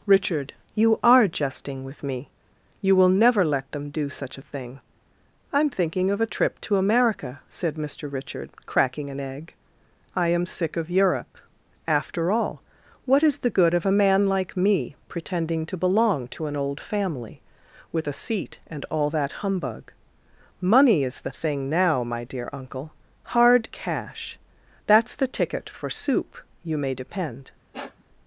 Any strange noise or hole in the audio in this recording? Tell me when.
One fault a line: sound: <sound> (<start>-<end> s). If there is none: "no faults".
sound: sniff (27.7-28.0 s)